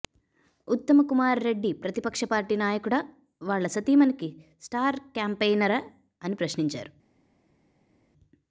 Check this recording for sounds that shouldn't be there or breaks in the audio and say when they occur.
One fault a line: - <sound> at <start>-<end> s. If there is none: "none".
none